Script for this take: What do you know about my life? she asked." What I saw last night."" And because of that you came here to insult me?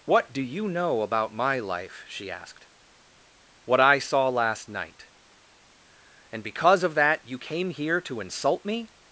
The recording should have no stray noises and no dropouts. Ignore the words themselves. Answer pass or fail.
pass